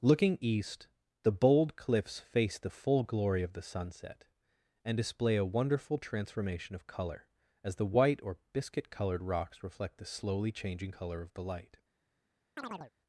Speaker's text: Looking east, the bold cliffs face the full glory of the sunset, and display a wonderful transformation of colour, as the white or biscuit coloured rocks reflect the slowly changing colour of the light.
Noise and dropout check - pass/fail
fail